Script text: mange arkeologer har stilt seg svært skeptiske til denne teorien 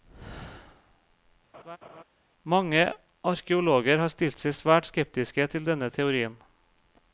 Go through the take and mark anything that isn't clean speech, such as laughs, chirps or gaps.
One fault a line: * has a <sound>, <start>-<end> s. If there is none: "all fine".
* has a laugh, 1.5-2.0 s